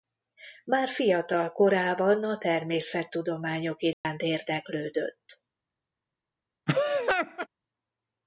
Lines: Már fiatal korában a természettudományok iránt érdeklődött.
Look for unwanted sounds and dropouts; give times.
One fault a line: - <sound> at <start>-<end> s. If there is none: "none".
- dropout at 3.9-4.0 s
- laugh at 6.7-7.5 s